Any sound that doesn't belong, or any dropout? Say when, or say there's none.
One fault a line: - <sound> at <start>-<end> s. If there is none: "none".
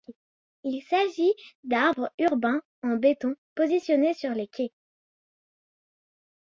none